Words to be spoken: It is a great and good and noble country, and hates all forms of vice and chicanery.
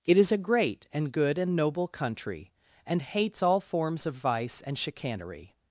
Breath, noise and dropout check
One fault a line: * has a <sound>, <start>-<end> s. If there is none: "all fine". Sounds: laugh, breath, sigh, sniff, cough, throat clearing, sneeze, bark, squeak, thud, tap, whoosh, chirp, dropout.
all fine